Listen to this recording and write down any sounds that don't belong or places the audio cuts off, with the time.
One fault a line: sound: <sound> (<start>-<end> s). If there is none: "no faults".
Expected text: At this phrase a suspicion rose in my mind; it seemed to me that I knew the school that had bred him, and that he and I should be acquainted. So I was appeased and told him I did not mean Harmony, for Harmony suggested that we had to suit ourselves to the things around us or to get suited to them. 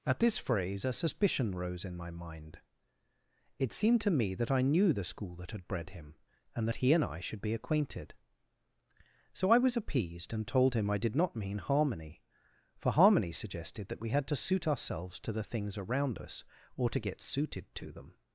no faults